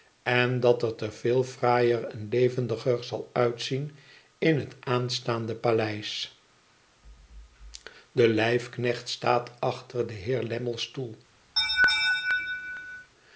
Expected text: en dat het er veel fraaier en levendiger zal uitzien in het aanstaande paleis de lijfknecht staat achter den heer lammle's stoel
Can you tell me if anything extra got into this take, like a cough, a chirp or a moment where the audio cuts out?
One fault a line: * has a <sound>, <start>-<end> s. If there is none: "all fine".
* has a laugh, 11.6-13.1 s